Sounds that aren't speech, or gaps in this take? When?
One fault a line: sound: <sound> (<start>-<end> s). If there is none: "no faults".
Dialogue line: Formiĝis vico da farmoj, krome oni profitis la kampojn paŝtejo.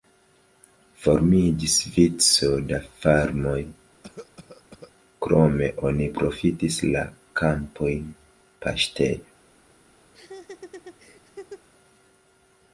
sound: cough (4.0-4.9 s)
sound: laugh (10.1-11.7 s)